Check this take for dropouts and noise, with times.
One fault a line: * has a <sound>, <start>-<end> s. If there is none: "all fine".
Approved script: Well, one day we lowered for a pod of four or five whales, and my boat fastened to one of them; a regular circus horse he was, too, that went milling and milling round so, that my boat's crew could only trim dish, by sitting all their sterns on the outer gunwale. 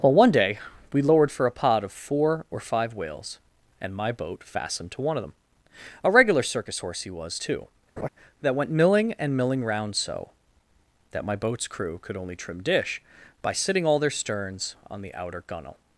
* has a laugh, 8.0-8.1 s